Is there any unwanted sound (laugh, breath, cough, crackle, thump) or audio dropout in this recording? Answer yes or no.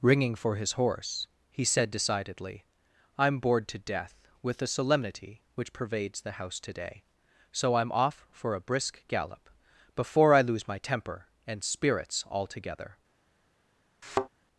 yes